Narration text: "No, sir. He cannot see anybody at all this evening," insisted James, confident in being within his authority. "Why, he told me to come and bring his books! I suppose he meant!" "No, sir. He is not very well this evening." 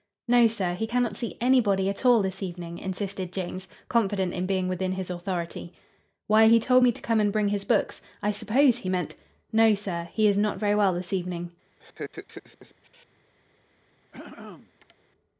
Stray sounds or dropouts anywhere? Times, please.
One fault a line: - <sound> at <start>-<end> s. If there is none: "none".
- laugh at 11.8-13.1 s
- throat clearing at 14.1-15.0 s